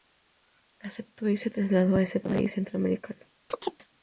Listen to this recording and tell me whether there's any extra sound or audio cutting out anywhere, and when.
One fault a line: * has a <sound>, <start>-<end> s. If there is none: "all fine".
* has a chirp, 3.5-3.9 s